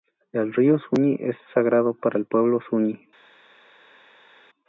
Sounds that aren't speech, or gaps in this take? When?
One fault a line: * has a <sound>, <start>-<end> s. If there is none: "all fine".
all fine